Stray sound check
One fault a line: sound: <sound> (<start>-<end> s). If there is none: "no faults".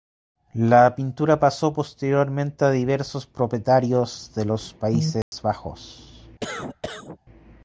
sound: dropout (5.2-5.3 s)
sound: cough (6.4-7.2 s)